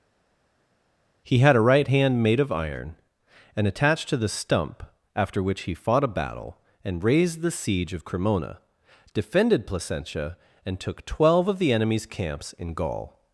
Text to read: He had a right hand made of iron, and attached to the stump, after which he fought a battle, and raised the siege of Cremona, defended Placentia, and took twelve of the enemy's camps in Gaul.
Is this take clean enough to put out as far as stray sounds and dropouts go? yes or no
yes